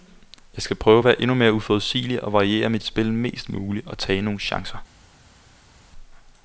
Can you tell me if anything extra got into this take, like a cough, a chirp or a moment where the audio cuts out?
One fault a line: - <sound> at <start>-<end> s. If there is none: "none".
none